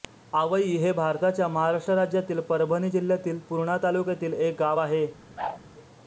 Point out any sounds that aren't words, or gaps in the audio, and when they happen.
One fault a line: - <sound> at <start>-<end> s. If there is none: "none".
- whoosh at 5.4-5.6 s